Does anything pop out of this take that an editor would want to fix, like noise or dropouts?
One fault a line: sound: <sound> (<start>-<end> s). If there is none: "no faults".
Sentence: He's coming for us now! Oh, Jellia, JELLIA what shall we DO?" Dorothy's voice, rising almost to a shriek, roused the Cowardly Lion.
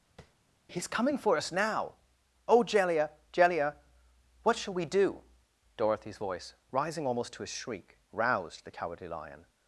sound: tap (0.2-0.3 s)